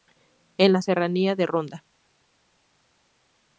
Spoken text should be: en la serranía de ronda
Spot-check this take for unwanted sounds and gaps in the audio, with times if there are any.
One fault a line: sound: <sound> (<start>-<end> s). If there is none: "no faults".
no faults